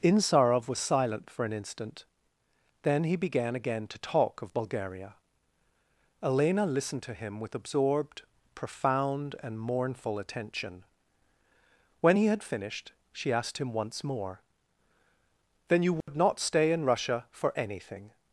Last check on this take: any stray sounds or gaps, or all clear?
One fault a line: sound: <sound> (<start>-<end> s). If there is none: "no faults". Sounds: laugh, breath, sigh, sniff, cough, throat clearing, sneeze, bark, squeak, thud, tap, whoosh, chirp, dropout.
sound: dropout (16.0-16.1 s)